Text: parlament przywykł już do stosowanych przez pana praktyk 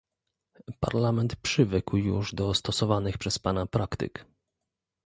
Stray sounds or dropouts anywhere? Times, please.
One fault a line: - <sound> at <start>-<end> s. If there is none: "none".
none